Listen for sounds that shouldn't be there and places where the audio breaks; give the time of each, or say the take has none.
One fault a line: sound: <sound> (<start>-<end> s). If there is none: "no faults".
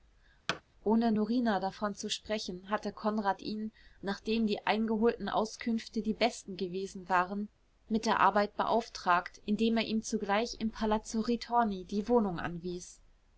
sound: thud (0.5-0.6 s)